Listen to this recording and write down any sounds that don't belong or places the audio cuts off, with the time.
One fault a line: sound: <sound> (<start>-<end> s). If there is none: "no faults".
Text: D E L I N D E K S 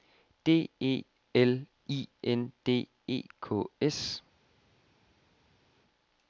no faults